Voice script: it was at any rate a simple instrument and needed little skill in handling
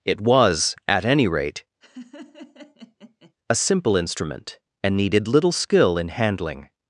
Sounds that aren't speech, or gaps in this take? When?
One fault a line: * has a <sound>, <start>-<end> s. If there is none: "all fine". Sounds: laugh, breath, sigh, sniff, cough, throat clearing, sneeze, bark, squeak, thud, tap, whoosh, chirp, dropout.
* has a laugh, 1.8-3.3 s